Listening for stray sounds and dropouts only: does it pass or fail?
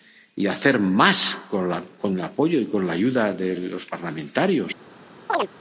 fail